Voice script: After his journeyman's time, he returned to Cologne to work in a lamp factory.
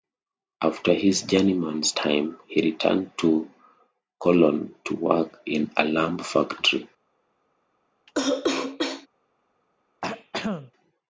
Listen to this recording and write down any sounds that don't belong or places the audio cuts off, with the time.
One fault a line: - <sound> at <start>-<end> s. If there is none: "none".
- cough at 8.1-9.1 s
- throat clearing at 10.0-10.7 s